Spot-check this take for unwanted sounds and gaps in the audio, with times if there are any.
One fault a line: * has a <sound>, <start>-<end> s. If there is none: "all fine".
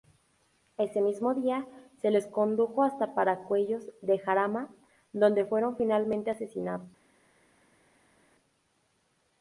all fine